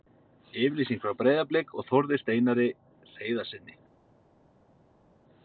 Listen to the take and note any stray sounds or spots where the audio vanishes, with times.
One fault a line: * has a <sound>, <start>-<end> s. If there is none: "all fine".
all fine